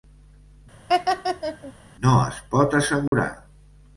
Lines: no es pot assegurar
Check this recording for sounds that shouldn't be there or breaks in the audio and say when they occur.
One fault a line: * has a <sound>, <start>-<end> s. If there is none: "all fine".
* has a laugh, 0.9-1.7 s
* has a dropout, 3.1-3.1 s